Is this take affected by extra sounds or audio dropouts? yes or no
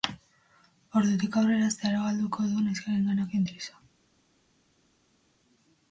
no